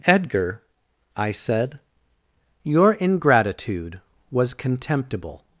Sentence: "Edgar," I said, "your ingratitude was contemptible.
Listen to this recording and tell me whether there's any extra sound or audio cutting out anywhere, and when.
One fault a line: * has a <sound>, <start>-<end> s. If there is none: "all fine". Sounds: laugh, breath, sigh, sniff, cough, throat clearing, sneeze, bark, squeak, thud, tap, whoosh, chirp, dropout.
all fine